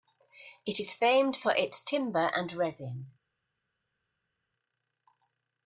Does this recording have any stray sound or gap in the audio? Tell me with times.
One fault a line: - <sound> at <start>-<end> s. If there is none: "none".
none